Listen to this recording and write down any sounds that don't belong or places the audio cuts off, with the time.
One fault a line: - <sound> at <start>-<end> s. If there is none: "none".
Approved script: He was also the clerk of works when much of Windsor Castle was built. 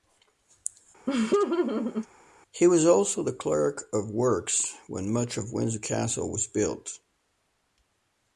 - laugh at 1.1-2.1 s